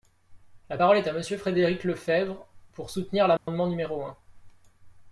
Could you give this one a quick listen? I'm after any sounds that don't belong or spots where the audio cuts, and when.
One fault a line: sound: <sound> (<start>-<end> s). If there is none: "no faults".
sound: dropout (3.4-3.5 s)